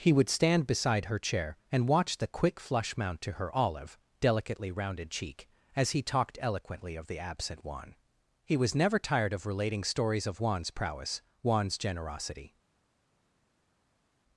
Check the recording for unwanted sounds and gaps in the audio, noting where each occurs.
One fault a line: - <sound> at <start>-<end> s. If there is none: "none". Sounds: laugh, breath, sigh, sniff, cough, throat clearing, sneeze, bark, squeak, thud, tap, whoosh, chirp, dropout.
none